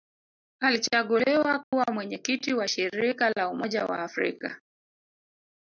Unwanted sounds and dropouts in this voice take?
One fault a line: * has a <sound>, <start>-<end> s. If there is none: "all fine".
* has a dropout, 1.6-1.7 s